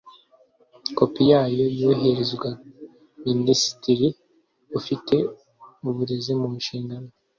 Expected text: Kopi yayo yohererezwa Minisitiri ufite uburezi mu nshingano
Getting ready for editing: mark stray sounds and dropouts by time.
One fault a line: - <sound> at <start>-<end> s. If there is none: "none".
none